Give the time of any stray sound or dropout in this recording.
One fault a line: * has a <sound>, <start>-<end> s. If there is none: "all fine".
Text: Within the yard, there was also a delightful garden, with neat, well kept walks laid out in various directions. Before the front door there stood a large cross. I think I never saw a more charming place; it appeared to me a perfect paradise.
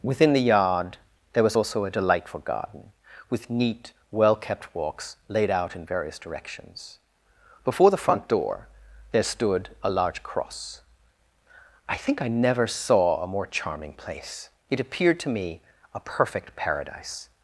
all fine